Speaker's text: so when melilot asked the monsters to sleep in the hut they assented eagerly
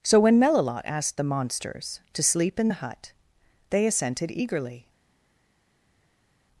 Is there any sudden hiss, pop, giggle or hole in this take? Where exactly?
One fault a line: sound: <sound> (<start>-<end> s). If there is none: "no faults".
no faults